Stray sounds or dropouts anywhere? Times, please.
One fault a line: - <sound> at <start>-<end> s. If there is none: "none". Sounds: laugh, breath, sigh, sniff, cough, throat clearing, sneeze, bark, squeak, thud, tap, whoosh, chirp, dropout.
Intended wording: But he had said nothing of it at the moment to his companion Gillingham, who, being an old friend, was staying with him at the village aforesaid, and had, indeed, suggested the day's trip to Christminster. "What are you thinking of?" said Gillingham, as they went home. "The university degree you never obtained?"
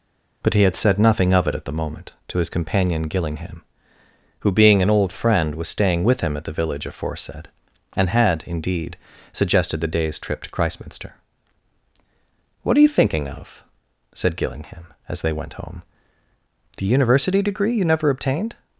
none